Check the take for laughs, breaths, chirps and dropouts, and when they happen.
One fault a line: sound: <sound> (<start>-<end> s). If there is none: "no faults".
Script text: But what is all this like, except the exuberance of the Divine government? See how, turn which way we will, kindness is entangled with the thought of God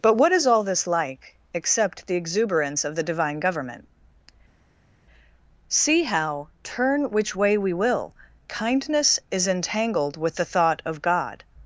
no faults